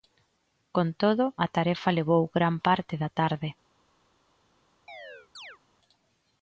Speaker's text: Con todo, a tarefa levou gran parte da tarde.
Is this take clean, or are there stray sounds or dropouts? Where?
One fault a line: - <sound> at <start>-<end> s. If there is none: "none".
- chirp at 4.9-5.6 s